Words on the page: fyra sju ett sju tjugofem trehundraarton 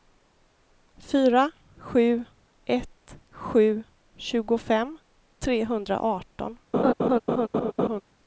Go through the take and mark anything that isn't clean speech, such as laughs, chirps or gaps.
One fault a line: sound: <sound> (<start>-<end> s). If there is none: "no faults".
sound: laugh (6.7-8.0 s)